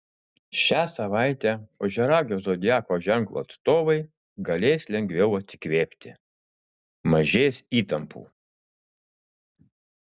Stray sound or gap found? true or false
false